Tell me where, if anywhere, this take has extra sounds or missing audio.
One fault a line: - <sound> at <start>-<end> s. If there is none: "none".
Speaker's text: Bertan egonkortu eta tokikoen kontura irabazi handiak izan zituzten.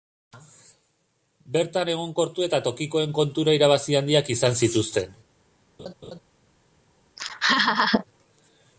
- laugh at 5.8-6.2 s
- laugh at 7.2-8.0 s